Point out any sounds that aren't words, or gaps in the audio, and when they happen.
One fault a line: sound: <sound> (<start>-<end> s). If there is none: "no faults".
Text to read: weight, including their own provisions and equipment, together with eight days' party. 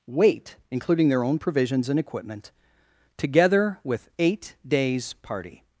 no faults